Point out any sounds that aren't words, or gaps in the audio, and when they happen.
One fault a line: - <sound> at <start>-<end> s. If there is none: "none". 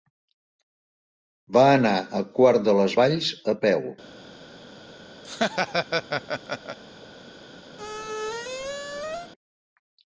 - laugh at 5.2-6.8 s
- squeak at 7.8-9.3 s